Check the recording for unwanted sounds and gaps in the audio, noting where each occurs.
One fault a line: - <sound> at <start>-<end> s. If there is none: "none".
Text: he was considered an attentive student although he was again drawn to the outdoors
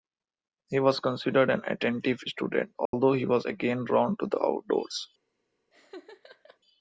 - dropout at 2.9-2.9 s
- laugh at 5.7-6.6 s